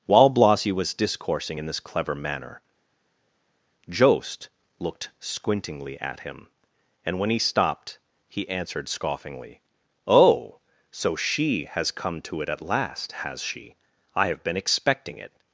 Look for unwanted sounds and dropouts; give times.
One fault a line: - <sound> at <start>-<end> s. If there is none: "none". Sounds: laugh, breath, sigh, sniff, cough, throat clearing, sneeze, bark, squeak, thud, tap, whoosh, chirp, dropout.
none